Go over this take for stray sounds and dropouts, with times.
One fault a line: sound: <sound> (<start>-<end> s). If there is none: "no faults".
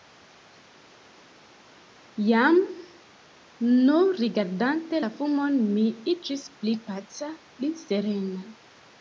no faults